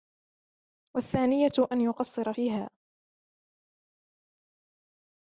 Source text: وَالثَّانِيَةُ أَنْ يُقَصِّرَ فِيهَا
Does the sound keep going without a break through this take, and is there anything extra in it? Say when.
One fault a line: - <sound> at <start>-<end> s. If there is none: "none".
none